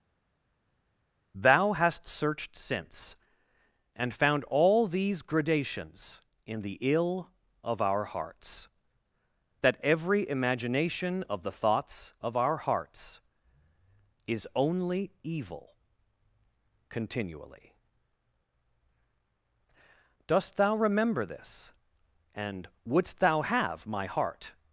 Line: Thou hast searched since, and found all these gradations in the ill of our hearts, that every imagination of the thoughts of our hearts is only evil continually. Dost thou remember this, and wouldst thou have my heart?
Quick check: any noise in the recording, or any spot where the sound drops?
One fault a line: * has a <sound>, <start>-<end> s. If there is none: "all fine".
all fine